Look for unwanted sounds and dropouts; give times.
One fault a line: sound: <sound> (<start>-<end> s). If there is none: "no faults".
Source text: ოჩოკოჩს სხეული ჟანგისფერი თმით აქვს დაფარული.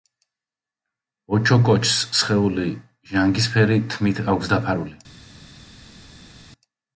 no faults